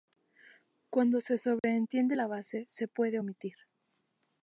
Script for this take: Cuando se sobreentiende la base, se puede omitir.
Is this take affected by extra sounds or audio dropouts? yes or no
yes